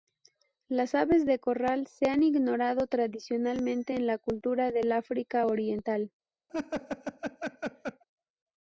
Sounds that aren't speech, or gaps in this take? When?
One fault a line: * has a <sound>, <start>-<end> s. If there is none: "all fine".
* has a laugh, 6.5-8.0 s